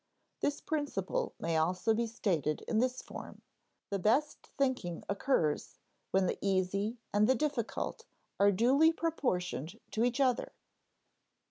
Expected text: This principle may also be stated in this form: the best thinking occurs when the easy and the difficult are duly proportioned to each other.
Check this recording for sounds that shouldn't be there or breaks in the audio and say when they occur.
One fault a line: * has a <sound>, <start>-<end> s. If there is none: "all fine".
all fine